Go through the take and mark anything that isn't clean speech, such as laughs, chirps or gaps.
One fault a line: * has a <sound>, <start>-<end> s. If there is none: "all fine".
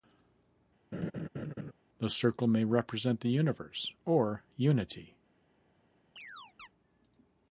* has a laugh, 0.9-1.7 s
* has a chirp, 6.2-6.7 s